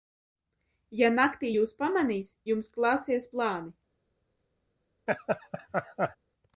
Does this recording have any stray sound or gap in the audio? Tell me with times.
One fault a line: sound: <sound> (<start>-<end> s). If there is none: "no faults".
sound: laugh (5.1-6.2 s)